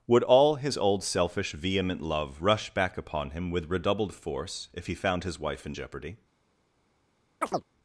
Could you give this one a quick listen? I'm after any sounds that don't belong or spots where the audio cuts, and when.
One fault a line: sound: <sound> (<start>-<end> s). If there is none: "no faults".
sound: chirp (7.4-7.6 s)